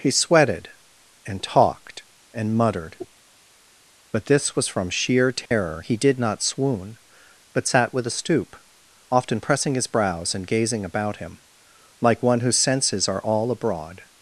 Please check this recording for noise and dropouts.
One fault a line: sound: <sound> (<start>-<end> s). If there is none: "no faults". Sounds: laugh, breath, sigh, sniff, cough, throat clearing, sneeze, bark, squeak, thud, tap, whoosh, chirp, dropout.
sound: dropout (5.5-5.5 s)